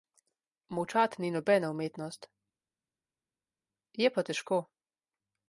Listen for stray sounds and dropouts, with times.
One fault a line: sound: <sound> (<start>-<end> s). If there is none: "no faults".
no faults